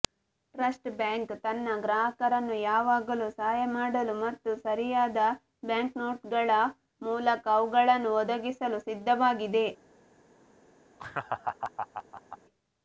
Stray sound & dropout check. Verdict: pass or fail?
fail